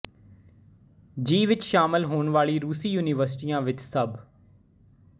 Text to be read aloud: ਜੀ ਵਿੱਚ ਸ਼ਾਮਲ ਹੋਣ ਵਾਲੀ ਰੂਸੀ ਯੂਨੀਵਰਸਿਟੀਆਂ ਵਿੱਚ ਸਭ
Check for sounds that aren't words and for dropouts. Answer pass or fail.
pass